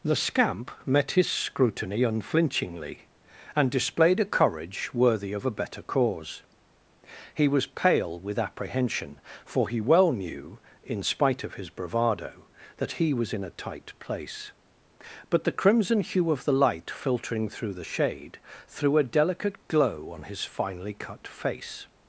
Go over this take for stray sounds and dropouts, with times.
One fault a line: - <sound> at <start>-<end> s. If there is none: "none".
none